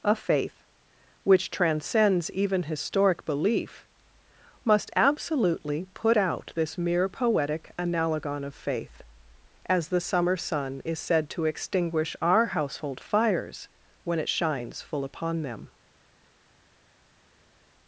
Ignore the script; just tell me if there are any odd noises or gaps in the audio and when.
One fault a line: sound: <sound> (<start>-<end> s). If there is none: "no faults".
no faults